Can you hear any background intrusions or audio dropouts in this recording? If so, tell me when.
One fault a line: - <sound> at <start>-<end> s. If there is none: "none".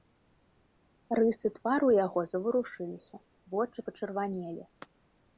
none